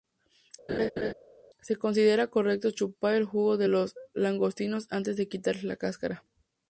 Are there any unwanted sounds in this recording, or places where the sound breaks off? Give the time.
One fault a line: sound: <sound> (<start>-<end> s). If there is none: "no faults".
sound: laugh (0.7-1.1 s)